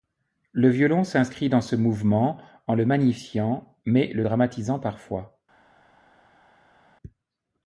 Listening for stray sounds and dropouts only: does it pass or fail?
pass